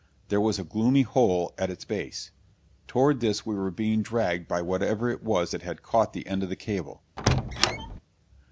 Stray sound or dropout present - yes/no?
yes